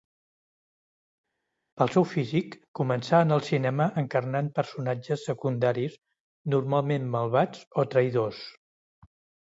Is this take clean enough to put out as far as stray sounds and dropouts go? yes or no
yes